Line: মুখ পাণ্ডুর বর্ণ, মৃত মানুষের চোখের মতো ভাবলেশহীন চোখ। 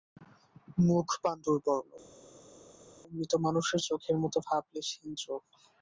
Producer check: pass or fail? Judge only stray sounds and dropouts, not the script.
pass